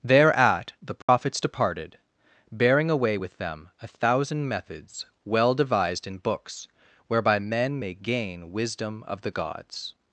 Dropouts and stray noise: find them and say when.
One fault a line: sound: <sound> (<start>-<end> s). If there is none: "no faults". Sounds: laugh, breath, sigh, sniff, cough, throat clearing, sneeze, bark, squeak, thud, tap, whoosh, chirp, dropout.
sound: dropout (1.0-1.1 s)